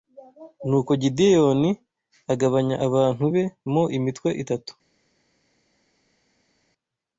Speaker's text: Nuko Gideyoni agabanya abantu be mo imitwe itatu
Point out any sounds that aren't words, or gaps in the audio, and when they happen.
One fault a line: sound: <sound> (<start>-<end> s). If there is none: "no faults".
no faults